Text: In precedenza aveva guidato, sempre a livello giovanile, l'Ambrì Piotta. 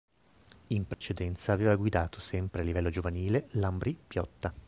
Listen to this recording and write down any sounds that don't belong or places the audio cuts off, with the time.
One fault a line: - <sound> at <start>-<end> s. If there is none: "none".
- dropout at 0.9-1.0 s